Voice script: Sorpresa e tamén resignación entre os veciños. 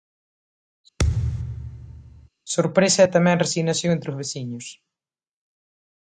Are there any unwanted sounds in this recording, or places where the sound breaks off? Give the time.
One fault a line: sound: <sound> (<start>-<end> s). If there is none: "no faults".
sound: thud (1.0-2.3 s)